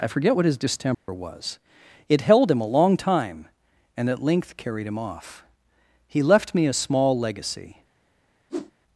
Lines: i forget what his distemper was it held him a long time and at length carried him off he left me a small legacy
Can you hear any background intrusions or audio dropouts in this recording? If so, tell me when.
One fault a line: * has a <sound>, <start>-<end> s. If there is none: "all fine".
* has a dropout, 0.9-1.1 s
* has a whoosh, 8.5-8.7 s